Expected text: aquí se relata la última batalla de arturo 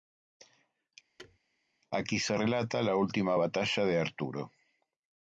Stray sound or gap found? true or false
true